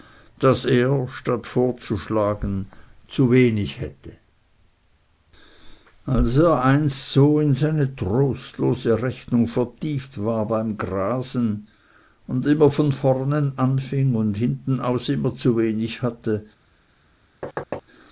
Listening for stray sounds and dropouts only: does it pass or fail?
fail